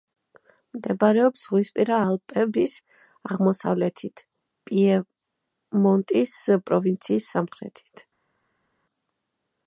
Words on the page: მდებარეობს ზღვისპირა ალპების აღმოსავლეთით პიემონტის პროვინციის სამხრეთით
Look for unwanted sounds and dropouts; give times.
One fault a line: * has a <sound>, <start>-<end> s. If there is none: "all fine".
all fine